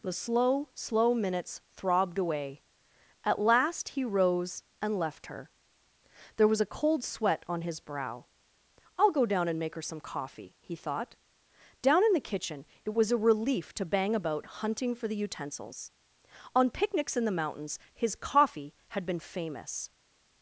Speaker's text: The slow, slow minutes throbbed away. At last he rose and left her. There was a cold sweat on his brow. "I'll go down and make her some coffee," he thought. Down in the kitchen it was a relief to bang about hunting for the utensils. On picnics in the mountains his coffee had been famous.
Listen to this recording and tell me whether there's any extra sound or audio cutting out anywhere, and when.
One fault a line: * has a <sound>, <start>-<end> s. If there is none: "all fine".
all fine